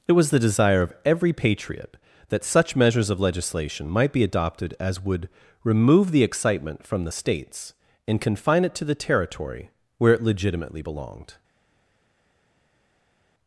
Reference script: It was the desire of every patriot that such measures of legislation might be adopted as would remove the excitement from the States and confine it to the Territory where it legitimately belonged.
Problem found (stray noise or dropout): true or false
false